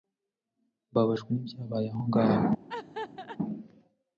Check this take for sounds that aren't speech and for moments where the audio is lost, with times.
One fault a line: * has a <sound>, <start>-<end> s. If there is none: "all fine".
* has a laugh, 2.7-3.4 s